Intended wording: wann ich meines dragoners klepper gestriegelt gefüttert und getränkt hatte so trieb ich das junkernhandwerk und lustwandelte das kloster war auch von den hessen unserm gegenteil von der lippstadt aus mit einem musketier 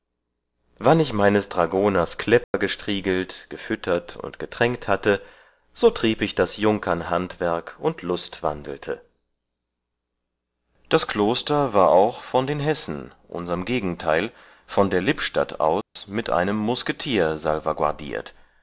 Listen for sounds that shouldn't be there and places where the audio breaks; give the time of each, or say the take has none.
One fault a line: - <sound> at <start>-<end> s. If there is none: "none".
- dropout at 2.4-2.5 s
- dropout at 15.8-16.0 s